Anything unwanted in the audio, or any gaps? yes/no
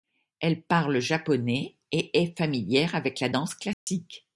yes